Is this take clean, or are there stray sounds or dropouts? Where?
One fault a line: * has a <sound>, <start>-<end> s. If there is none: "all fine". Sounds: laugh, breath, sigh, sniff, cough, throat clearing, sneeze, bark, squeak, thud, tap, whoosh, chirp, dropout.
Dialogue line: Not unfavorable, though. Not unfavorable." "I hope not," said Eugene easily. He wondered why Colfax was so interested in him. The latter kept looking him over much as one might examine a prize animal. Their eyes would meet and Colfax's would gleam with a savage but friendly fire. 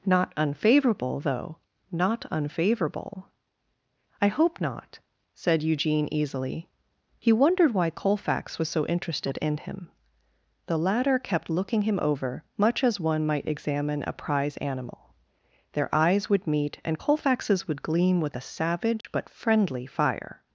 * has a dropout, 19.0-19.0 s